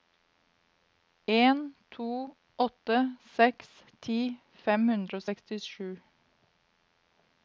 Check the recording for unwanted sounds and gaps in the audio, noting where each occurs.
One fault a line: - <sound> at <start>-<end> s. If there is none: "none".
none